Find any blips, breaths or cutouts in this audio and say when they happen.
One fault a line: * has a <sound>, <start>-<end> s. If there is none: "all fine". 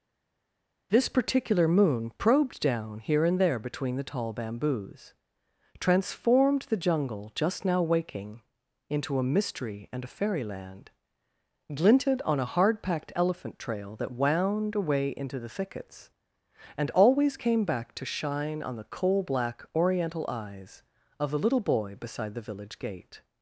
all fine